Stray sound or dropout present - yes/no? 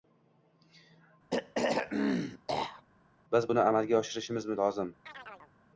yes